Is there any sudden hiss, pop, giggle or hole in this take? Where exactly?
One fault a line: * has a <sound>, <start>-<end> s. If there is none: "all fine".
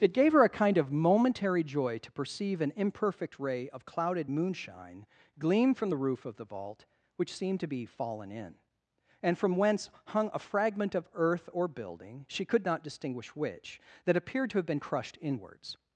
all fine